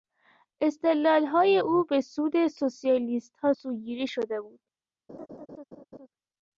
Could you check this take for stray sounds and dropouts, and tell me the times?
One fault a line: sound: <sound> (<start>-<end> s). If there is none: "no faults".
sound: laugh (5.1-6.1 s)